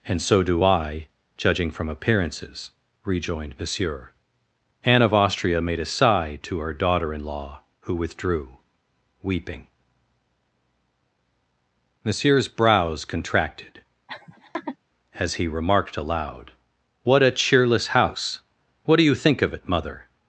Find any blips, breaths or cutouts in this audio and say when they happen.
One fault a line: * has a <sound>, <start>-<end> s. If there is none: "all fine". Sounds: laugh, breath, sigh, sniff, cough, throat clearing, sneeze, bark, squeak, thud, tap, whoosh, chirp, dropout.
* has a laugh, 14.1-14.8 s